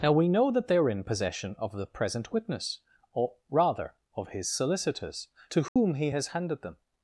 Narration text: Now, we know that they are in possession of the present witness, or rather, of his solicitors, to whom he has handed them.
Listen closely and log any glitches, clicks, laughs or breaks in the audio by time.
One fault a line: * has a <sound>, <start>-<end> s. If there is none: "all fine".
* has a dropout, 5.7-5.8 s